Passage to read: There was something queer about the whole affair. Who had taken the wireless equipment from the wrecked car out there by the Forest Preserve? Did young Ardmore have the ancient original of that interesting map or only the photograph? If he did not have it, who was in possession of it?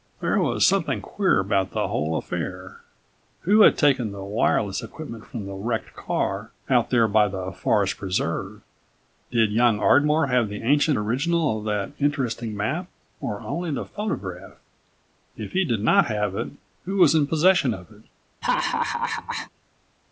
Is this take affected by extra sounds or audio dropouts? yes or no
yes